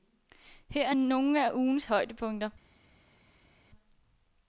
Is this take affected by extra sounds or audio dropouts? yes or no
no